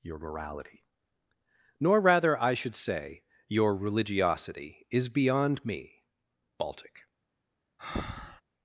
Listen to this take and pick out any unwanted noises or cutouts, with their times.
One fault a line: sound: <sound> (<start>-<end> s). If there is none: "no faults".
sound: breath (7.8-8.4 s)